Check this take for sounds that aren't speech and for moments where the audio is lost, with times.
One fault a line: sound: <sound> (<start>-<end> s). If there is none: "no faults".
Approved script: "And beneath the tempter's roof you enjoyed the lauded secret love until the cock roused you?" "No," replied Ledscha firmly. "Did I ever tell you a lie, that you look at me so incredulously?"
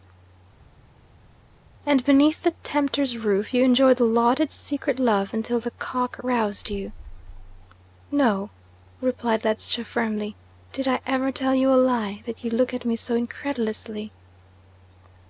no faults